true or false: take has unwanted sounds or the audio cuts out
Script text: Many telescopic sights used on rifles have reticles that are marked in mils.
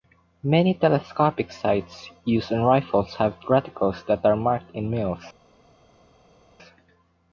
false